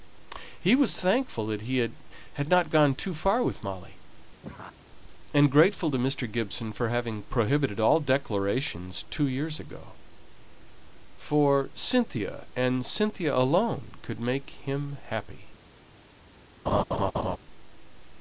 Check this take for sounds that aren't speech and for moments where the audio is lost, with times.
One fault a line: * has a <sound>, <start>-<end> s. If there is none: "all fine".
* has a laugh, 4.4-4.8 s
* has a laugh, 16.7-17.4 s